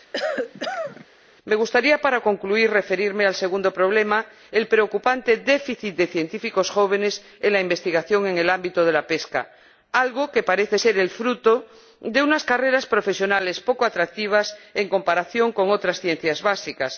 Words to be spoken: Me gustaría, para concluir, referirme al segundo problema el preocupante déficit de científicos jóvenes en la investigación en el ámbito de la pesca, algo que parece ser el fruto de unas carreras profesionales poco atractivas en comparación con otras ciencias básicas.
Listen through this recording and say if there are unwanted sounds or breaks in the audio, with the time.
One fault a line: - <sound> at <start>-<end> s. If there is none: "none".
- cough at 0.1-1.1 s